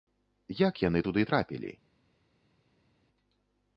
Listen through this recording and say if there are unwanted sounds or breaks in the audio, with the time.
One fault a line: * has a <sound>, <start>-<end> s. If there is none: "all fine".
all fine